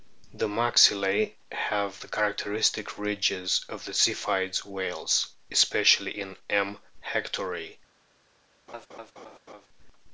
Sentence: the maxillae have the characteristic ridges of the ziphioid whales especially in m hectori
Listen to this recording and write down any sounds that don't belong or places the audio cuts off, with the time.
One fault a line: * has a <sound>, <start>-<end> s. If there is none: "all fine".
* has a laugh, 8.7-9.7 s